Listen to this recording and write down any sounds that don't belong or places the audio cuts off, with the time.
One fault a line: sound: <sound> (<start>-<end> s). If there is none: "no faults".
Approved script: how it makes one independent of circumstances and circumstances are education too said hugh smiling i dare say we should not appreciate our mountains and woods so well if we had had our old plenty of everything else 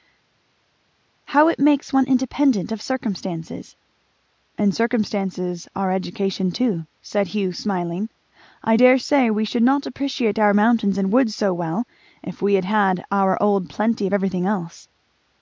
no faults